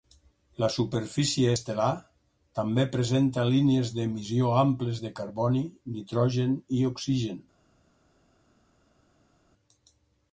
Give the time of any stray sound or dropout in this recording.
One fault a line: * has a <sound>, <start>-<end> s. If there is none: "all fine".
all fine